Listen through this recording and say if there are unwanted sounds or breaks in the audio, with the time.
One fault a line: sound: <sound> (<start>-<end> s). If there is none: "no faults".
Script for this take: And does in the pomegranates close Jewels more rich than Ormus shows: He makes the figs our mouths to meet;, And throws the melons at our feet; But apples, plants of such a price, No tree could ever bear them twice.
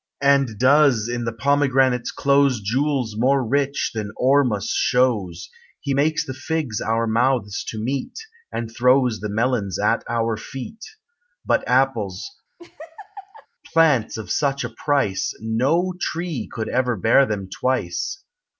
sound: laugh (12.6-13.5 s)